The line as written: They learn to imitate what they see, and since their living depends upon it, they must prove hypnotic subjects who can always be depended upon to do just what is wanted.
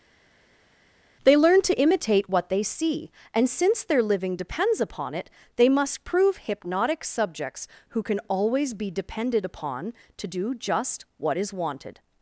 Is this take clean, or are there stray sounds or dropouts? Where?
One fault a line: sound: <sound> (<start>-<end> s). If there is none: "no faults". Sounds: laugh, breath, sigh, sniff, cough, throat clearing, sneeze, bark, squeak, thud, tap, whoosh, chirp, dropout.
no faults